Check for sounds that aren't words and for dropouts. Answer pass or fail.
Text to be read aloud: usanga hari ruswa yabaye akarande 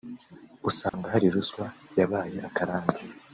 fail